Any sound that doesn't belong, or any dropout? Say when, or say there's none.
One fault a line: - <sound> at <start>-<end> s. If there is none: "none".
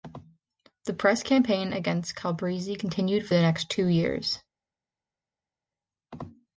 none